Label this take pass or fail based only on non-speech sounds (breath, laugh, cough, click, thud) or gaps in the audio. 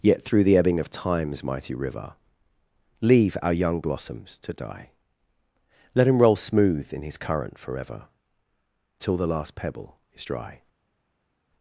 pass